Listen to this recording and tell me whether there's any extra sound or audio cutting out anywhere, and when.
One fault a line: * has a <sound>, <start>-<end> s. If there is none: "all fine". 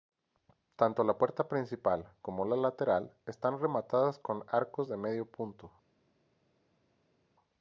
all fine